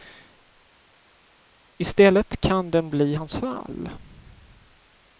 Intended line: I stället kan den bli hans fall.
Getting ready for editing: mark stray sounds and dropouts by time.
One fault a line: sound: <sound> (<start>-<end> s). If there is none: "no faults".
no faults